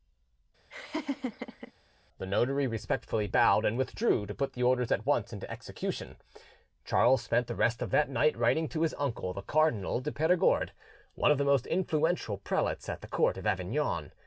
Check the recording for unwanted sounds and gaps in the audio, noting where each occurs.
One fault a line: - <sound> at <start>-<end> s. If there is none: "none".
- laugh at 0.7-1.7 s